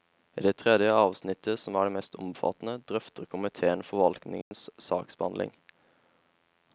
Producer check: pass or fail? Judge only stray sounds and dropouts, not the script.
fail